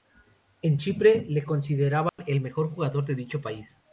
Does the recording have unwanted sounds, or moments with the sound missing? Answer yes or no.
yes